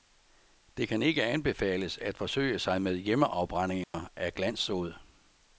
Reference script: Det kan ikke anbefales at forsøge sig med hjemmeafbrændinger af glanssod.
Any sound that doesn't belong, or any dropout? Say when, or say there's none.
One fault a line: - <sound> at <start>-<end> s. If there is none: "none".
- dropout at 3.8-3.9 s